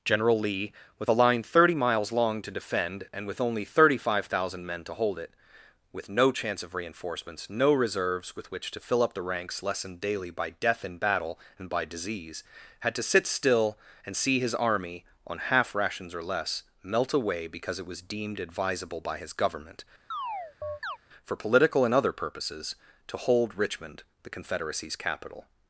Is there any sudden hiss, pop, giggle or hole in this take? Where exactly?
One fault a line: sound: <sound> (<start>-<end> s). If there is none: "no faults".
sound: chirp (20.1-21.0 s)